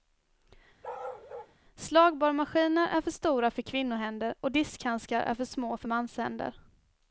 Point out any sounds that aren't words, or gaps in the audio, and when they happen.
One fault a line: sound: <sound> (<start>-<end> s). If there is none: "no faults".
sound: bark (0.8-1.5 s)